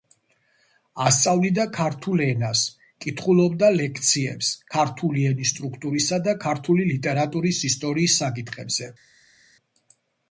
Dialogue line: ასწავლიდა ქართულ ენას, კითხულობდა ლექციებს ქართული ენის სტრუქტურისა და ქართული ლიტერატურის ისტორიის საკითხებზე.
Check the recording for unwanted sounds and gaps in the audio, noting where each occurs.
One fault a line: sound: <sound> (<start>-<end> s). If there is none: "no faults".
no faults